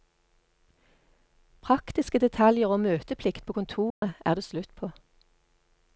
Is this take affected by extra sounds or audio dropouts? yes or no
yes